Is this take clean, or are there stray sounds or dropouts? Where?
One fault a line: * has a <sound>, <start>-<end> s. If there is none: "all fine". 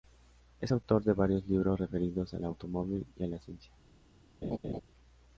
* has a laugh, 4.4-4.8 s